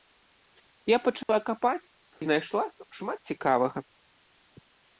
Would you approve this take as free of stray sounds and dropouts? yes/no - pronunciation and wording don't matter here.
no